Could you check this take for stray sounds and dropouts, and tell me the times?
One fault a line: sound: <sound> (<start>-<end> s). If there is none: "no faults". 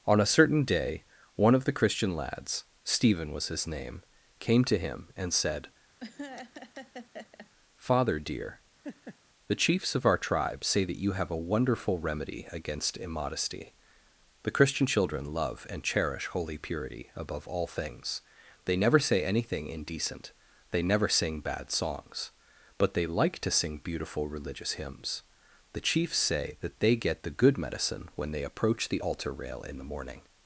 sound: laugh (6.0-7.5 s)
sound: laugh (8.8-9.2 s)